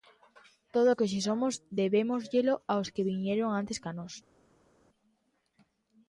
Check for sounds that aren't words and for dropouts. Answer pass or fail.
pass